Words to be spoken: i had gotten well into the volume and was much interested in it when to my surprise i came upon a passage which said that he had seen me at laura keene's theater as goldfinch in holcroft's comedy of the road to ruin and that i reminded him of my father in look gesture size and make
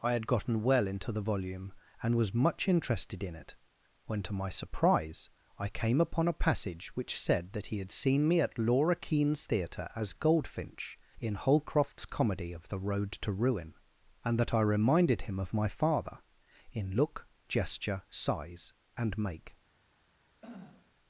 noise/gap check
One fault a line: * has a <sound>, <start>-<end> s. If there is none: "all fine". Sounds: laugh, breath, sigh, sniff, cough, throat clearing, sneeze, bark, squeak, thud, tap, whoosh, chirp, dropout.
* has a throat clearing, 20.4-20.9 s